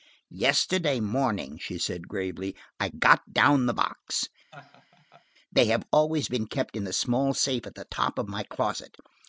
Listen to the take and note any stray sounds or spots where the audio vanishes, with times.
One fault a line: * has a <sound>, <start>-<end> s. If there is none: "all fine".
* has a laugh, 4.5-5.3 s